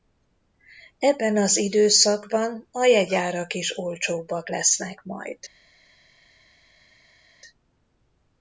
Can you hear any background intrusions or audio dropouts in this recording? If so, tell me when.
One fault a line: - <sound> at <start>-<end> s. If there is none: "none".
none